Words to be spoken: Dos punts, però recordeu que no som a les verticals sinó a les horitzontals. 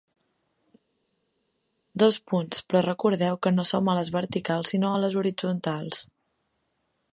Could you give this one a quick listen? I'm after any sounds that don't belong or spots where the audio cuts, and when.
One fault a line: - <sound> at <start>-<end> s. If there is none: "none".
none